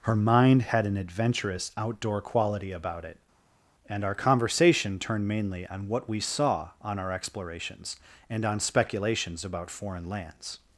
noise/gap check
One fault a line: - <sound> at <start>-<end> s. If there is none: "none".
none